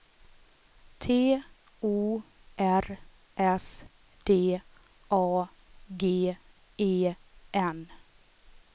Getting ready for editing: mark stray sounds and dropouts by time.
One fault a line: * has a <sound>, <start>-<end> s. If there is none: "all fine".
all fine